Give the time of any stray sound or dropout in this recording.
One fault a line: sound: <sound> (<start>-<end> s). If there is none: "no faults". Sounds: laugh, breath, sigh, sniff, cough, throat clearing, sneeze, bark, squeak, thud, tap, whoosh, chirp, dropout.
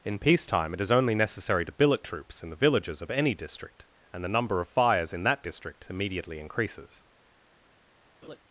sound: laugh (8.2-8.4 s)